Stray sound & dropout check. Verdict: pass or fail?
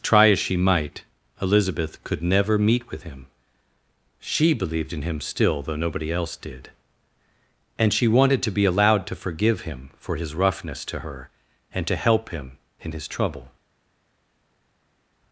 pass